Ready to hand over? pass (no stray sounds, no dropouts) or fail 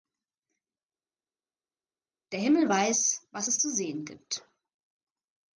pass